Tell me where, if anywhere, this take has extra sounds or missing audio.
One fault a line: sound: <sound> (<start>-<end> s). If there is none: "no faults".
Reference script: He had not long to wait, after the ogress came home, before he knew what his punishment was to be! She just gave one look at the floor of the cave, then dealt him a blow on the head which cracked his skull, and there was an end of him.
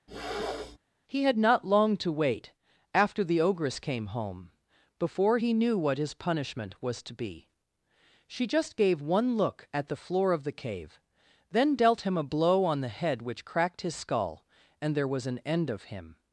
sound: throat clearing (0.1-0.8 s)